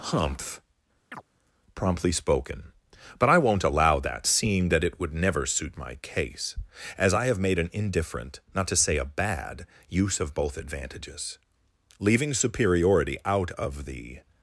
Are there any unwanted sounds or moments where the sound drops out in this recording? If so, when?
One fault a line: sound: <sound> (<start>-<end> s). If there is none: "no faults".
sound: chirp (1.1-1.2 s)